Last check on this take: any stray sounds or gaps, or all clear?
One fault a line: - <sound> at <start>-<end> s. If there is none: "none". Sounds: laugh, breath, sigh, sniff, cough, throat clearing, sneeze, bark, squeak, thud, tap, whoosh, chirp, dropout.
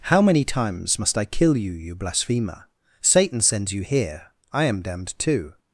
none